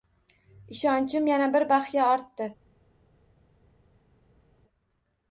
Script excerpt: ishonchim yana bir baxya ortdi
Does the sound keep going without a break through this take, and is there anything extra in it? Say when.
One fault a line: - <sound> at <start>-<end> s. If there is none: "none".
none